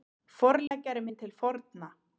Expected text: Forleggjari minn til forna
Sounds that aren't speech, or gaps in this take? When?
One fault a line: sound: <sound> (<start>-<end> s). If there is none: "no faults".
sound: dropout (0.7-0.7 s)